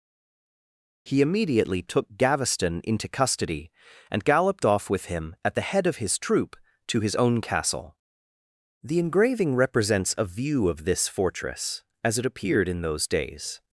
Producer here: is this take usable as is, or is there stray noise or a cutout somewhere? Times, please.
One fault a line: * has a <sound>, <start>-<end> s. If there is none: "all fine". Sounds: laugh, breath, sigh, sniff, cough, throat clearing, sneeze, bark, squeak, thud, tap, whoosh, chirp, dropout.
all fine